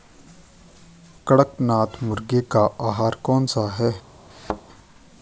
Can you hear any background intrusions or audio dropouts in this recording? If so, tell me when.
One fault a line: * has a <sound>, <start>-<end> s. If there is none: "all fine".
* has a thud, 4.3-4.6 s